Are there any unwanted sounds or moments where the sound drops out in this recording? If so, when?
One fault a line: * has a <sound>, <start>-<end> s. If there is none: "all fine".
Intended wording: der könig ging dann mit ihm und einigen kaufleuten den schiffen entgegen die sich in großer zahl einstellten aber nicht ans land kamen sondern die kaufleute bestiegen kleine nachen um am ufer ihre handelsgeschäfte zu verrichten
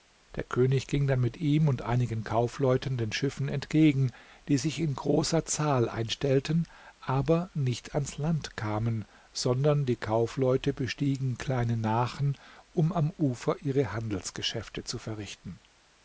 all fine